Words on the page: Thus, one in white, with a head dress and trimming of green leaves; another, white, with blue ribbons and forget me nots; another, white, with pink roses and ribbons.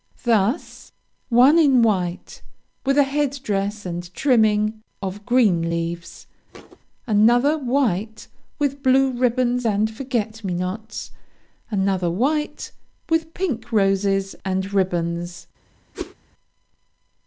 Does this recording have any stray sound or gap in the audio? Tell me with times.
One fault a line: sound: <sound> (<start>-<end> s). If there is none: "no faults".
sound: thud (6.5-6.8 s)
sound: whoosh (15.9-16.1 s)